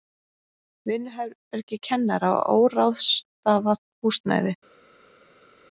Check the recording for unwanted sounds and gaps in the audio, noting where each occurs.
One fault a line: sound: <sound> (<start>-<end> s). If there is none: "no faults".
no faults